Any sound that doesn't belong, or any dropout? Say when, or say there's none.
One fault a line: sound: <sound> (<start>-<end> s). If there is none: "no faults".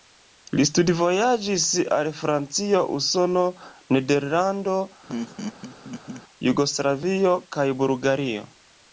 sound: laugh (5.1-6.2 s)